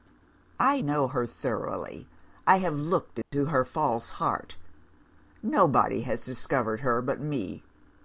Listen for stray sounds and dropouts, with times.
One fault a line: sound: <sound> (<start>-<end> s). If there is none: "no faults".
sound: dropout (3.2-3.3 s)